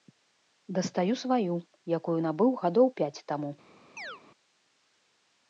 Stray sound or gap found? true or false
true